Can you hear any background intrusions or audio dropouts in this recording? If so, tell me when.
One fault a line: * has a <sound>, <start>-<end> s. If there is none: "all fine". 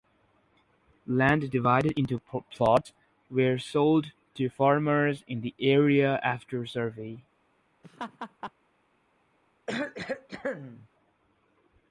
* has a laugh, 7.8-8.5 s
* has a cough, 9.7-10.9 s